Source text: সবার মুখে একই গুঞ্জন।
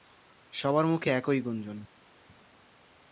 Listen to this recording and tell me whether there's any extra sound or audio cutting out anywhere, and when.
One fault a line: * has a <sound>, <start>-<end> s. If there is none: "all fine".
all fine